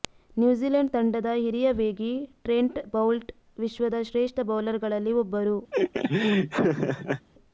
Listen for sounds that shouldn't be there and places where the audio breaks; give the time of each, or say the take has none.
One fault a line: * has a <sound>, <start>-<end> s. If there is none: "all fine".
* has a laugh, 5.7-7.3 s